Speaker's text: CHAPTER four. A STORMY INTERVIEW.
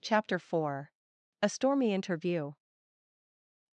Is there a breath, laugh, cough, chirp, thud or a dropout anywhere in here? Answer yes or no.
no